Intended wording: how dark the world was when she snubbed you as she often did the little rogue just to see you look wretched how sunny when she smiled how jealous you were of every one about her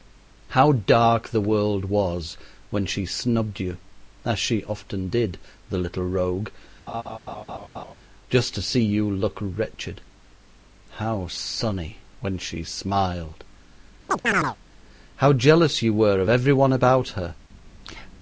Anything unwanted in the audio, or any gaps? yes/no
yes